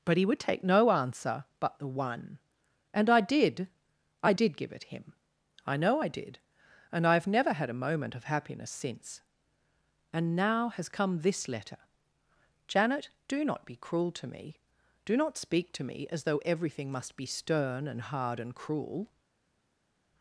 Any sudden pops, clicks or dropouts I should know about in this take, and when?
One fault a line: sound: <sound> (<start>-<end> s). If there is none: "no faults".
no faults